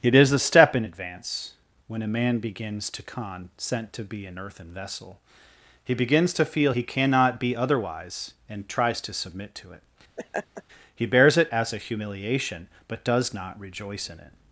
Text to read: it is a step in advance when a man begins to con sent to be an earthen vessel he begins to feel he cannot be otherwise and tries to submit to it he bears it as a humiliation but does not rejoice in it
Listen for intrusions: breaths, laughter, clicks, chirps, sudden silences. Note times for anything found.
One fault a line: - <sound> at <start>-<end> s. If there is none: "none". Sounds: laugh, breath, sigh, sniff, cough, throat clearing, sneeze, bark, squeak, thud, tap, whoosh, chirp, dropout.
- laugh at 10.2-10.6 s